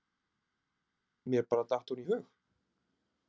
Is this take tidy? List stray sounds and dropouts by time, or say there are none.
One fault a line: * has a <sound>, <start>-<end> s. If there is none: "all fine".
all fine